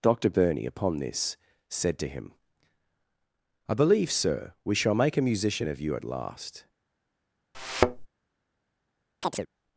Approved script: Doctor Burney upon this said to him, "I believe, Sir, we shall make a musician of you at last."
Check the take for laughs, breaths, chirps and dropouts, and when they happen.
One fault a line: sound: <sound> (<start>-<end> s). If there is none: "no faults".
sound: thud (7.5-8.1 s)
sound: chirp (9.2-9.5 s)